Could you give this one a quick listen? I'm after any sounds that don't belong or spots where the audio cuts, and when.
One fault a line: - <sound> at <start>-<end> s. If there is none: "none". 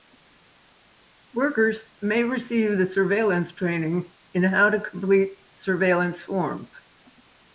none